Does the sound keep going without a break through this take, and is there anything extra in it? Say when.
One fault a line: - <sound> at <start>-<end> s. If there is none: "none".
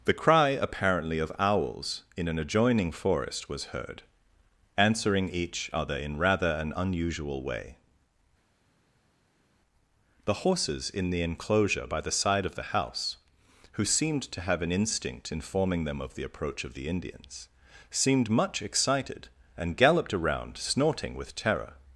none